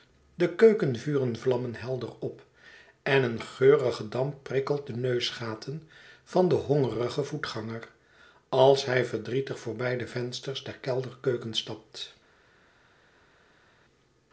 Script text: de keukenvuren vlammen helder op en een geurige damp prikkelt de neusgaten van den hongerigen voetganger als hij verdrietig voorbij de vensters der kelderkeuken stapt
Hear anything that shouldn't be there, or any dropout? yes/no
no